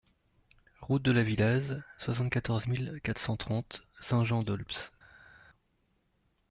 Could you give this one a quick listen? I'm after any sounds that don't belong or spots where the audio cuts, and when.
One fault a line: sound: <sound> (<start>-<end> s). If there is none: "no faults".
no faults